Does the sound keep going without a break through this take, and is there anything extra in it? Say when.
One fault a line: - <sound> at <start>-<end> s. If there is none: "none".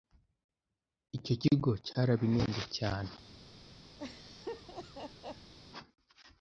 - laugh at 4.0-5.5 s